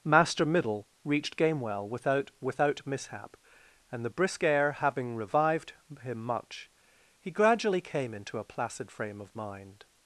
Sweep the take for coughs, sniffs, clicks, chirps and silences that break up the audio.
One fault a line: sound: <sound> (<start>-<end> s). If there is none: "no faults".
no faults